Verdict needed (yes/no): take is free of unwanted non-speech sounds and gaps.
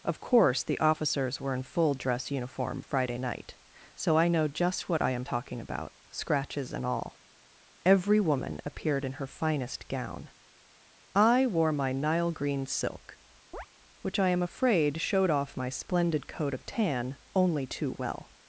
no